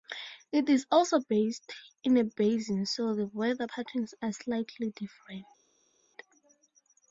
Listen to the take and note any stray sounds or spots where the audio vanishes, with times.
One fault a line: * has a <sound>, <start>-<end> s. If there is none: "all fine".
all fine